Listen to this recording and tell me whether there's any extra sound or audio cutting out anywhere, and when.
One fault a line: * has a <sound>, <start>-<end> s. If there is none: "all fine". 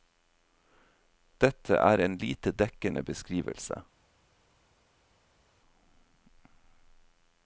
all fine